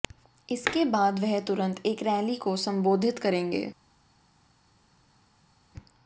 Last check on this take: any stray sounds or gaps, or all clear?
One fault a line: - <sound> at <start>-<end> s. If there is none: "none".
none